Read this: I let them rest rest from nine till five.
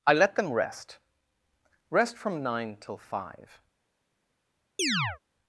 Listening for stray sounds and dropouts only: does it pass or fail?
fail